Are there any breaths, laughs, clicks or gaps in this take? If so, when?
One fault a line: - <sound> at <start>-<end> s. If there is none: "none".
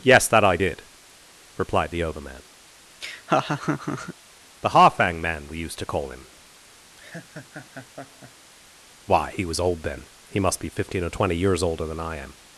- laugh at 3.0-4.1 s
- laugh at 7.0-8.5 s